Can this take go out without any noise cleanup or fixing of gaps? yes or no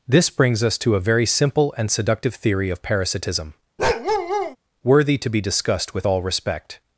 no